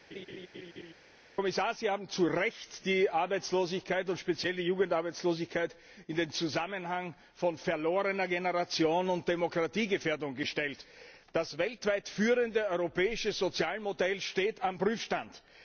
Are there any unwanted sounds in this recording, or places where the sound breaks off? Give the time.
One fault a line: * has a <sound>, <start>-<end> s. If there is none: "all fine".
* has a laugh, 0.1-0.9 s